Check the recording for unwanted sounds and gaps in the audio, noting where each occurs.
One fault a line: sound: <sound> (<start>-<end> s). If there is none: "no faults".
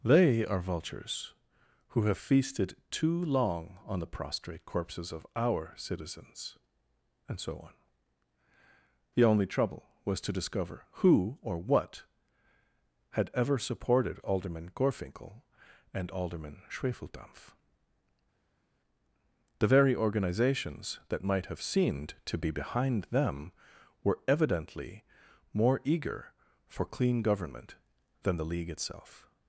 no faults